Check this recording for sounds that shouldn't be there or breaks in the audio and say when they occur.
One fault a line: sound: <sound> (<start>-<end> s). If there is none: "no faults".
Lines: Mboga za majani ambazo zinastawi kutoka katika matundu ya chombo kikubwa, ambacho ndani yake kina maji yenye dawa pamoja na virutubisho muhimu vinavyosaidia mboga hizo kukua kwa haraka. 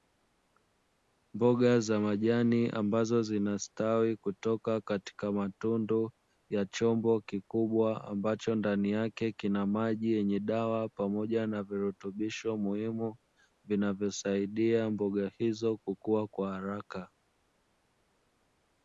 no faults